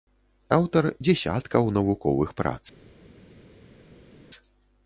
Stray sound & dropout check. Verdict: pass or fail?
pass